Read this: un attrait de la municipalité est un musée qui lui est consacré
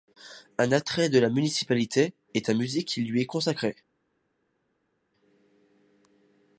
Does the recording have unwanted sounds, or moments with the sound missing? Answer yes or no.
no